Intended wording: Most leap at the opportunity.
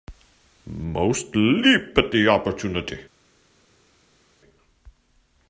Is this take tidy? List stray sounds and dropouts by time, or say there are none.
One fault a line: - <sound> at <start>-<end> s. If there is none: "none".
none